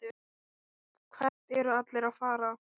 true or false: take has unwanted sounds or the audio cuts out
true